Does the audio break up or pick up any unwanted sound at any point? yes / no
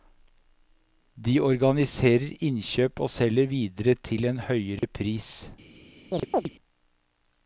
yes